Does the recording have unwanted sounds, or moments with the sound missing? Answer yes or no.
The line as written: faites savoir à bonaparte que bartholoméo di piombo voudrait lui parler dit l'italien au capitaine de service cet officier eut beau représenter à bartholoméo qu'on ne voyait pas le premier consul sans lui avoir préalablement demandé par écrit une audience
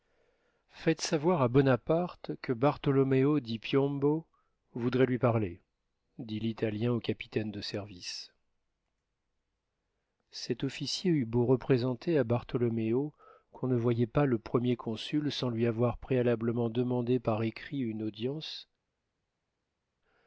no